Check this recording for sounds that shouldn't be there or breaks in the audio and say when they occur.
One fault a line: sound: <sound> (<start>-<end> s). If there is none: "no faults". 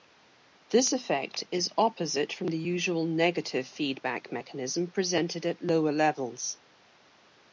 no faults